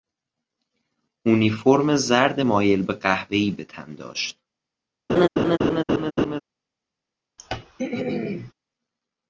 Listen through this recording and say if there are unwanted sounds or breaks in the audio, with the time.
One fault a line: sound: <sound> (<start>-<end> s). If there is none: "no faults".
sound: laugh (5.1-6.4 s)
sound: throat clearing (7.4-8.5 s)